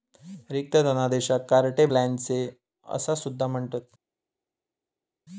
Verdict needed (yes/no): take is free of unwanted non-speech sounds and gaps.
yes